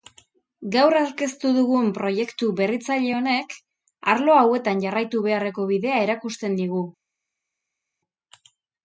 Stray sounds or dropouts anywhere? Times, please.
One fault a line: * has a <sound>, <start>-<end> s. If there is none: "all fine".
all fine